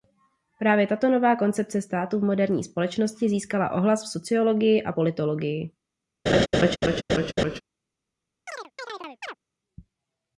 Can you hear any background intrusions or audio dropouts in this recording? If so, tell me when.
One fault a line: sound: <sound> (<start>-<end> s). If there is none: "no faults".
sound: laugh (6.3-7.6 s)
sound: chirp (8.5-9.4 s)